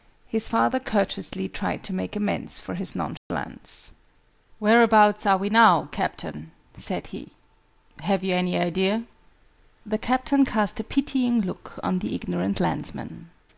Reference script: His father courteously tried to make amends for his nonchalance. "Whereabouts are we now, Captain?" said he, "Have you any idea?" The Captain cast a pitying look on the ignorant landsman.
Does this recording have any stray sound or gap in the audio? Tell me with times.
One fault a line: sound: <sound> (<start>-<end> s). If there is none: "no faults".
sound: dropout (3.2-3.3 s)